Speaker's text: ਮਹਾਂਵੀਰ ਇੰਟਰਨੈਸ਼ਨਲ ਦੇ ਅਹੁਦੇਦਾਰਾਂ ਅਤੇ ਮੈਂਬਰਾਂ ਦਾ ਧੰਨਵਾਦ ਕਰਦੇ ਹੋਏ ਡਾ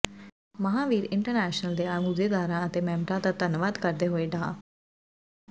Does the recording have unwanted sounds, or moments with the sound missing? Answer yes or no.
no